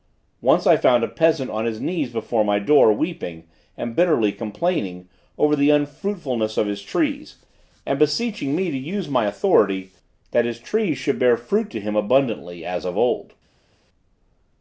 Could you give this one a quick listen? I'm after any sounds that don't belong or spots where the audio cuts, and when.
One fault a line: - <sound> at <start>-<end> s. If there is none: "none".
none